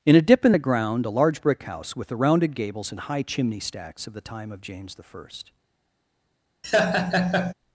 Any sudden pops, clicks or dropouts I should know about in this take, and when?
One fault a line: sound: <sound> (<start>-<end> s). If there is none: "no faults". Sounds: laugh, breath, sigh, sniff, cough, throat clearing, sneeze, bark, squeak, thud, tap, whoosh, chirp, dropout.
sound: laugh (6.6-7.5 s)